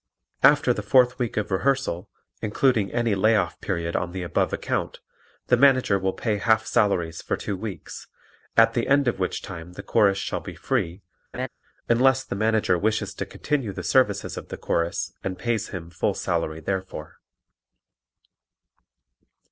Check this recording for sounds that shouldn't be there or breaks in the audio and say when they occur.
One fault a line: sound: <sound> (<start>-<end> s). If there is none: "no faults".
sound: laugh (11.3-11.5 s)